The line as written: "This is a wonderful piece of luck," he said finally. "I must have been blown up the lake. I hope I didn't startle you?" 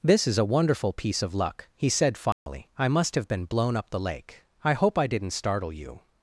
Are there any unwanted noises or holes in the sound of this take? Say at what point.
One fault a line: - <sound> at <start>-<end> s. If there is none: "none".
- dropout at 2.3-2.5 s